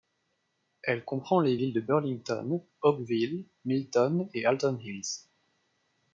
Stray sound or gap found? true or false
false